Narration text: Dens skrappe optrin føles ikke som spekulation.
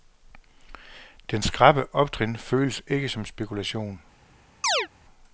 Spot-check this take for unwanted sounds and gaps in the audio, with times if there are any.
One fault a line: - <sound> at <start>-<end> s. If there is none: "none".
- chirp at 4.6-4.9 s